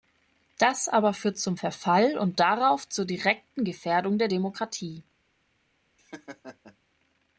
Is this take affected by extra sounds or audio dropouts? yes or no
yes